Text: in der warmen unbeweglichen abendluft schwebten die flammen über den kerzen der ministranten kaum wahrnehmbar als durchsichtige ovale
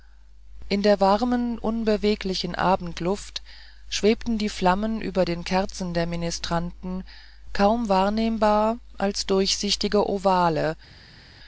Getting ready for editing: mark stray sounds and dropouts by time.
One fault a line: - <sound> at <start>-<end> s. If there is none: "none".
none